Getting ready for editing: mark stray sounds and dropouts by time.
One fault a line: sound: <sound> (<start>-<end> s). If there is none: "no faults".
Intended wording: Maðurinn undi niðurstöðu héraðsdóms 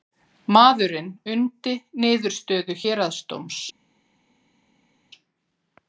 no faults